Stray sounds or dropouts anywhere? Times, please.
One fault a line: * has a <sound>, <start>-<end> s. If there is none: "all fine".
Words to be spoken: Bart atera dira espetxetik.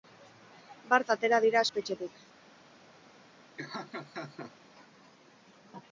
* has a laugh, 3.6-4.5 s